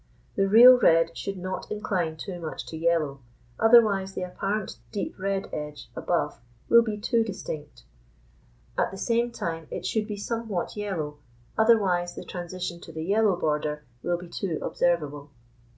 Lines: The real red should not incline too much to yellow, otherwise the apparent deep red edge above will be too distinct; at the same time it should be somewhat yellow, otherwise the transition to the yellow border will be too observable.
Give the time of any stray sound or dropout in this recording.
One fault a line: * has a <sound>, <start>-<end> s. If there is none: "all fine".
all fine